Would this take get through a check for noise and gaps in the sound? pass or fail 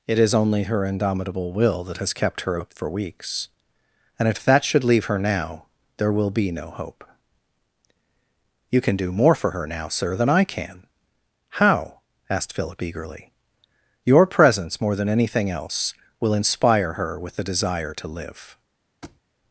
fail